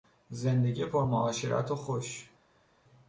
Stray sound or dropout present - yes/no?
no